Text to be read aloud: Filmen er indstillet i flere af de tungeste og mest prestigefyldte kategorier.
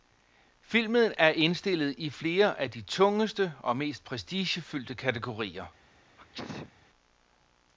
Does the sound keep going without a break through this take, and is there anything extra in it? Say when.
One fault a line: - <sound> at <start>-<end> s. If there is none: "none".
- sneeze at 6.2-6.7 s